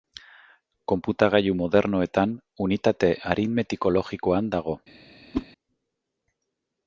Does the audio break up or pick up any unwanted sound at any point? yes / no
yes